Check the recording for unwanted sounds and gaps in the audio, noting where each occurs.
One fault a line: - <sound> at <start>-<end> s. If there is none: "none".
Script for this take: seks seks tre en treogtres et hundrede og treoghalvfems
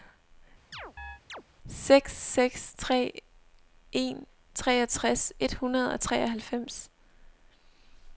- chirp at 0.7-1.4 s